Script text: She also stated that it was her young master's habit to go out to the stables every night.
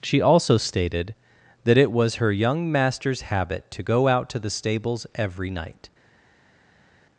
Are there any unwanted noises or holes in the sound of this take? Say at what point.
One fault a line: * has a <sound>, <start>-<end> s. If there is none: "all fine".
all fine